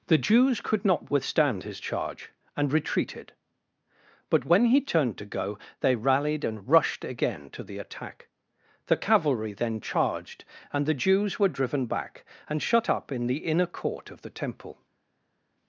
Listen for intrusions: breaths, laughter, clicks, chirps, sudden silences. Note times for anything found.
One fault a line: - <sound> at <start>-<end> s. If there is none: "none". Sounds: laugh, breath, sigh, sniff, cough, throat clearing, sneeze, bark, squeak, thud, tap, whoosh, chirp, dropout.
none